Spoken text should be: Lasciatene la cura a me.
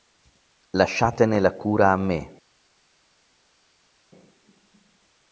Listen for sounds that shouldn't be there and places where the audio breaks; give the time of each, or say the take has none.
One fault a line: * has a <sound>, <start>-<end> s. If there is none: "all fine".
all fine